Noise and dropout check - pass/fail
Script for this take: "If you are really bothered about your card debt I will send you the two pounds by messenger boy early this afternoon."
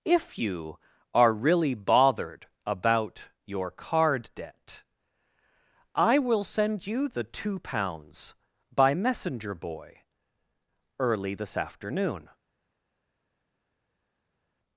pass